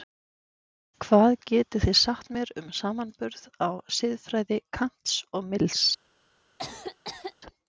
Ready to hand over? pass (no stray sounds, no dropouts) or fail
fail